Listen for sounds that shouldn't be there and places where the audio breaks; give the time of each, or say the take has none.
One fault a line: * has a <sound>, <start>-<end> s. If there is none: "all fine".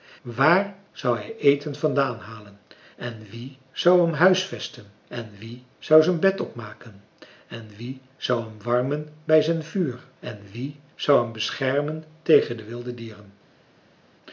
all fine